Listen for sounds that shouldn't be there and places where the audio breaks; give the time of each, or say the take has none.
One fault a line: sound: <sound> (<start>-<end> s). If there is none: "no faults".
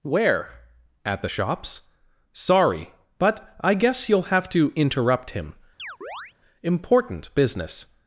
sound: chirp (5.8-6.3 s)